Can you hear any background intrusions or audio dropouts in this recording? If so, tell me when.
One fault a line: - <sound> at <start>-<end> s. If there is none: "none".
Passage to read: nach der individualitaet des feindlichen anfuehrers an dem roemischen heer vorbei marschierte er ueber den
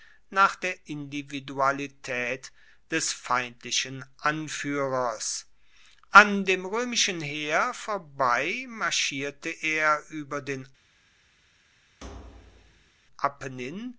- thud at 12.0-13.0 s